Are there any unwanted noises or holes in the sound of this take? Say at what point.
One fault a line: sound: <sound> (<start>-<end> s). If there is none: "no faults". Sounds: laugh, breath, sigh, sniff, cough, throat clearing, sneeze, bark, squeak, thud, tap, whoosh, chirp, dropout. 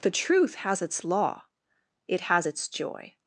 no faults